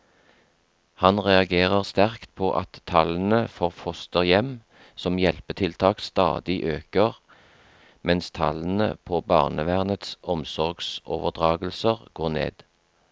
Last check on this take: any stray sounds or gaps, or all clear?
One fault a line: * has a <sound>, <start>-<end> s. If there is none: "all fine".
all fine